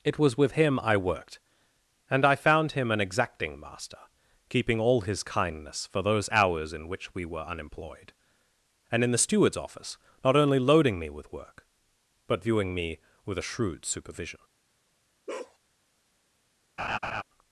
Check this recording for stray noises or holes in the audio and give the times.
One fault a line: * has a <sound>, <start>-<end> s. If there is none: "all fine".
* has a bark, 15.3-15.6 s
* has a laugh, 16.8-17.2 s